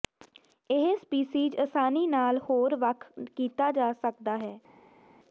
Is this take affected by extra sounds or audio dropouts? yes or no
no